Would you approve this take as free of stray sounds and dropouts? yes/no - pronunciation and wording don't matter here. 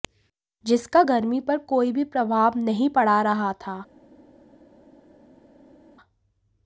yes